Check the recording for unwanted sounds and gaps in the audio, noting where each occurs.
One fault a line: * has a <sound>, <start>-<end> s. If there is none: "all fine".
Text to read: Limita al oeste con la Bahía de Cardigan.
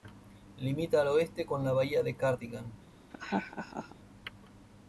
* has a laugh, 3.1-4.0 s